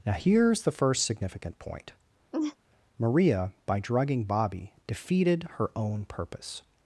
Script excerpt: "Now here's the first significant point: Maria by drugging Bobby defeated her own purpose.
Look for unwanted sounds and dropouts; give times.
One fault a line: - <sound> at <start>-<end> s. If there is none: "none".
- laugh at 2.3-2.6 s